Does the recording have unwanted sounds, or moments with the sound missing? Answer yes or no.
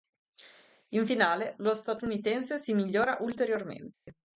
yes